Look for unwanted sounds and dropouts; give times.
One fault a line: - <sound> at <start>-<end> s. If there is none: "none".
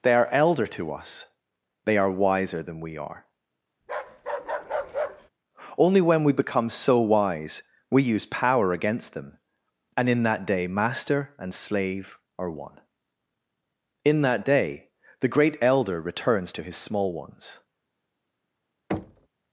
- bark at 3.8-5.3 s
- thud at 18.9-19.3 s